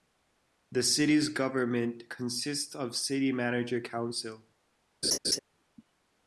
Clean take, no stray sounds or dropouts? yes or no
no